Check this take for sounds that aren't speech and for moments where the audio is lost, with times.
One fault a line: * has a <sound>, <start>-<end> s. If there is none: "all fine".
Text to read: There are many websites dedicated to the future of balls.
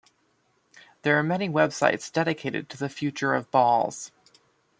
all fine